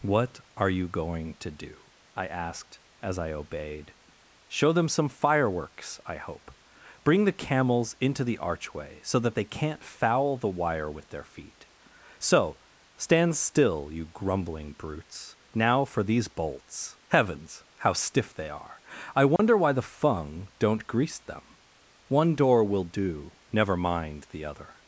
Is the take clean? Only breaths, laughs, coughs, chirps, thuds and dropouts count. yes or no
no